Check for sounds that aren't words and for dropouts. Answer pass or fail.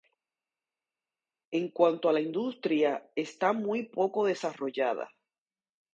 pass